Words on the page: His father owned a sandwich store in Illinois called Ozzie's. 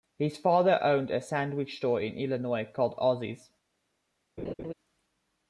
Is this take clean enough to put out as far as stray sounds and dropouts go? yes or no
no